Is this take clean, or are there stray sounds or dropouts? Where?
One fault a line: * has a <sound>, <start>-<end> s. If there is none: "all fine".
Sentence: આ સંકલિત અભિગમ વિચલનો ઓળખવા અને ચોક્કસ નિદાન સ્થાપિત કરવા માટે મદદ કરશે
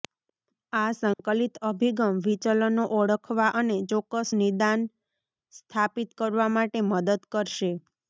* has a dropout, 1.1-1.2 s